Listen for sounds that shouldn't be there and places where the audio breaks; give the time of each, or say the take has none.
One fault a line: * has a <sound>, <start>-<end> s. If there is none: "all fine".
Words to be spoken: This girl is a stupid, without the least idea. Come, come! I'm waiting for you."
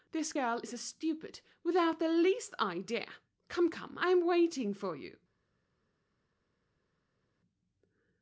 all fine